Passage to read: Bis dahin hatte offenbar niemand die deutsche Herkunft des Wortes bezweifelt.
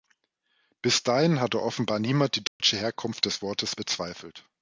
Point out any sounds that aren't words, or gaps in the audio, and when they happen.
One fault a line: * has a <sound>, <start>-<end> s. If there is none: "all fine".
* has a dropout, 2.5-2.6 s